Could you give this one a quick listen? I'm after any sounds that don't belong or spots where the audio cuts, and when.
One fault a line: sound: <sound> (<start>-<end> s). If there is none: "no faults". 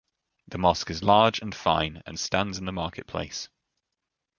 no faults